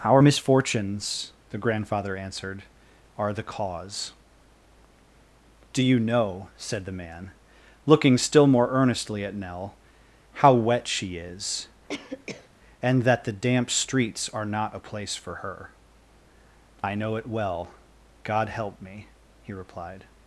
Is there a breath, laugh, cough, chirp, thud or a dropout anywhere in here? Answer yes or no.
yes